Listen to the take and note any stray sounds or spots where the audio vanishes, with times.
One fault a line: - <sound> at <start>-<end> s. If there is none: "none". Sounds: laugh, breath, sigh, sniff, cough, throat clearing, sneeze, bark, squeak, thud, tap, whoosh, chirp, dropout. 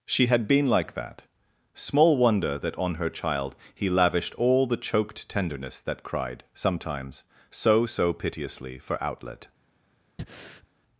- breath at 10.2-10.7 s